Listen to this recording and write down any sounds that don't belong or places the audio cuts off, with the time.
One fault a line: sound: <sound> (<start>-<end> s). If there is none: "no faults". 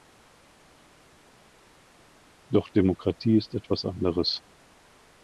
no faults